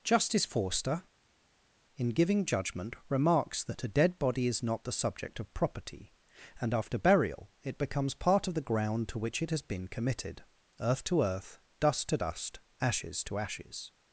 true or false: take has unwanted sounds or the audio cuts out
false